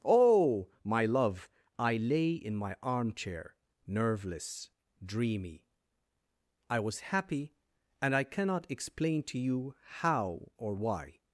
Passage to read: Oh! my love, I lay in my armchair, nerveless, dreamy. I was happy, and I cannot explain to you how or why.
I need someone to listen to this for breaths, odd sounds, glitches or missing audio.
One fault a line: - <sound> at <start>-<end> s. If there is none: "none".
none